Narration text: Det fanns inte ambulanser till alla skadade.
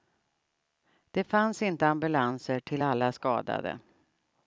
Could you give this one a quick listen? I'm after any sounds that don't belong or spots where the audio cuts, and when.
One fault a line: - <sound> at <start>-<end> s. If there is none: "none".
none